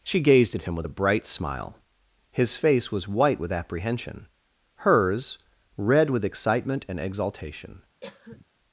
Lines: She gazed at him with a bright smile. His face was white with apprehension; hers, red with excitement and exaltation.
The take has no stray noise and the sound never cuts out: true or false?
false